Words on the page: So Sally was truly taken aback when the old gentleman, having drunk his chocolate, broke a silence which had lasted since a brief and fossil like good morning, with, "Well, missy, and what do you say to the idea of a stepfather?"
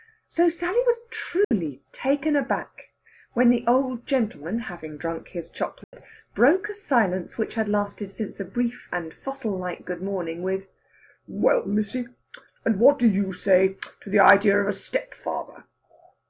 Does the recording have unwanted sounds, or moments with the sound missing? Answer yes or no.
yes